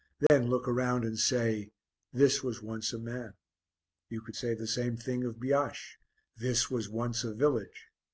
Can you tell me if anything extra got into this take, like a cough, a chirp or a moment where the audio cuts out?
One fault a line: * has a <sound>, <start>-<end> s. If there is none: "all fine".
* has a dropout, 0.3-0.3 s